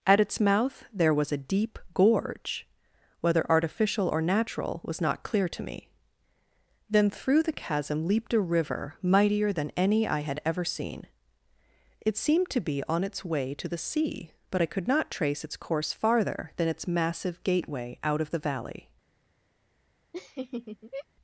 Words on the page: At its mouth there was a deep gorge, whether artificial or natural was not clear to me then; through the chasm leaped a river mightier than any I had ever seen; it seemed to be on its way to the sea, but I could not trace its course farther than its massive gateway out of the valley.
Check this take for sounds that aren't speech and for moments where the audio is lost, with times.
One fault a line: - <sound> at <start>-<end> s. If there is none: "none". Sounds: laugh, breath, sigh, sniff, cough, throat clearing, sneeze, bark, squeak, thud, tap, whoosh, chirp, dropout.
- laugh at 20.1-21.1 s